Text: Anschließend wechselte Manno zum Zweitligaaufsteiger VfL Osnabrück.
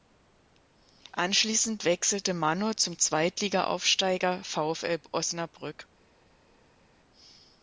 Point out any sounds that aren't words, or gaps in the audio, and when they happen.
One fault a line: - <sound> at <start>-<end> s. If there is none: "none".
none